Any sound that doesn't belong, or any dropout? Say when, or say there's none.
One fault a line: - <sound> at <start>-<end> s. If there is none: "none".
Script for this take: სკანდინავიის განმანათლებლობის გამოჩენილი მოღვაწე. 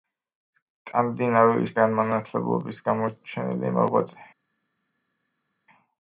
none